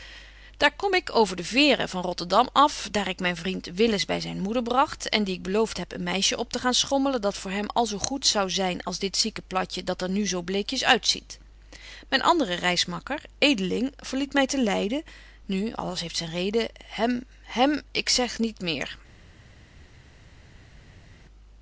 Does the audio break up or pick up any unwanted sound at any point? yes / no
no